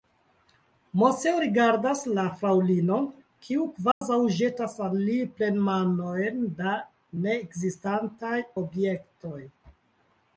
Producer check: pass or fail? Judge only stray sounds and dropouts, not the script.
fail